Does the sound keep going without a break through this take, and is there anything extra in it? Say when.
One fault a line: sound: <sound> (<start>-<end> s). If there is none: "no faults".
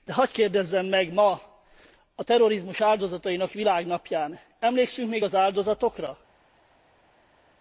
no faults